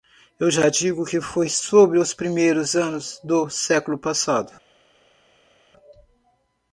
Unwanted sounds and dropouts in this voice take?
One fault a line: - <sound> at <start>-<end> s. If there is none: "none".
none